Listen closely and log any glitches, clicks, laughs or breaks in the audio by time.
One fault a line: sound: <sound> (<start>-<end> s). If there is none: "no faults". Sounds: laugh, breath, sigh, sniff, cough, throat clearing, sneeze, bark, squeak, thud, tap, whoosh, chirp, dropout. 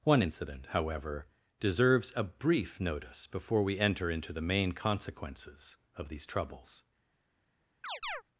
sound: chirp (7.8-8.2 s)